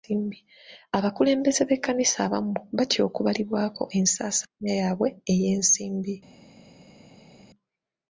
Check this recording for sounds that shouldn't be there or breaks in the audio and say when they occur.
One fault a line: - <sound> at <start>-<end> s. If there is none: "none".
none